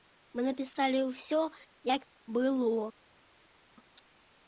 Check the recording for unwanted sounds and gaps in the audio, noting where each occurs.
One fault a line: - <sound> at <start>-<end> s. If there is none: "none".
none